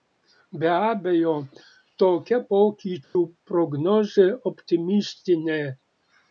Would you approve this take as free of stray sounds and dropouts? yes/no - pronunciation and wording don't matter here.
no